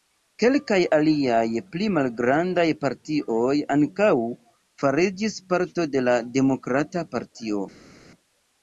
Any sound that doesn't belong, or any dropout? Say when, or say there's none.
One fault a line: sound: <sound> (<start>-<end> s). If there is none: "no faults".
no faults